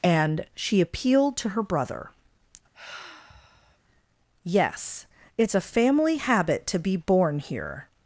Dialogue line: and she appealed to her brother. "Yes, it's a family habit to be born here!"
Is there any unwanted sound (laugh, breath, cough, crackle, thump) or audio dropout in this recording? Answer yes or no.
yes